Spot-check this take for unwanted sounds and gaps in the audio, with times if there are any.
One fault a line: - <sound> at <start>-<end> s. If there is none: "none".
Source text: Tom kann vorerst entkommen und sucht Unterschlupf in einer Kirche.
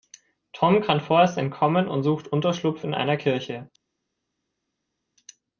none